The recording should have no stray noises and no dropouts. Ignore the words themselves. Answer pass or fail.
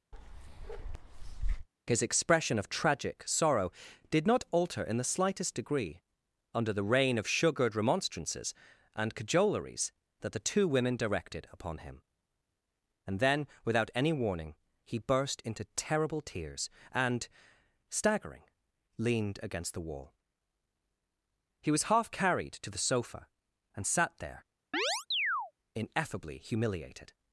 fail